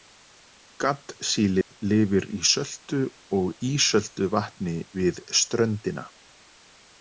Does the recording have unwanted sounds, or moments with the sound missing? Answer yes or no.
yes